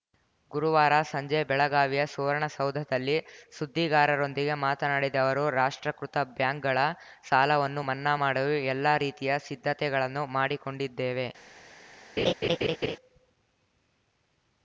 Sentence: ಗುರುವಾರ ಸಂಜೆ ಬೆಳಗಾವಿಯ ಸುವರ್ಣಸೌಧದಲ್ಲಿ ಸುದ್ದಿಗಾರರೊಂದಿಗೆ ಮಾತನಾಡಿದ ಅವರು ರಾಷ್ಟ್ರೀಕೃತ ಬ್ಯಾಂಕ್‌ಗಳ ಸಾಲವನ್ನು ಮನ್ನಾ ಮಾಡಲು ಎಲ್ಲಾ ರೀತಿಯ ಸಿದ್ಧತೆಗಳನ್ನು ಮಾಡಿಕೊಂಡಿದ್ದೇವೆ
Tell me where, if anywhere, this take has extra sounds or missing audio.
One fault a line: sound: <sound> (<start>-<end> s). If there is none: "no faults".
sound: laugh (12.2-13.0 s)